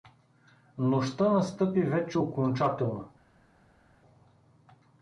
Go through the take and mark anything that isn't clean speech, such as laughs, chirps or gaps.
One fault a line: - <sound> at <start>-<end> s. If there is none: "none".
none